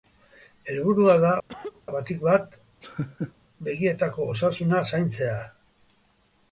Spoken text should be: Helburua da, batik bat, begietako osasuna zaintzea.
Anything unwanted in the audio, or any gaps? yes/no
yes